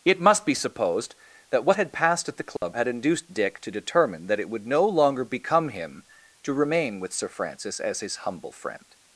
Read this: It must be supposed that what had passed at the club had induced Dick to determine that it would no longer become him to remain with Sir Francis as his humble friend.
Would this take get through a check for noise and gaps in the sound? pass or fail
fail